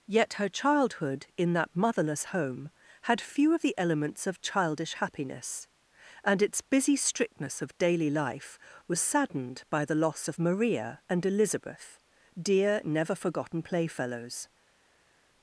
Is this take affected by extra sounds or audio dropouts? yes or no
no